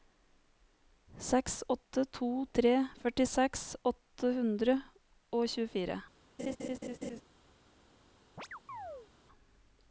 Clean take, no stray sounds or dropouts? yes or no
no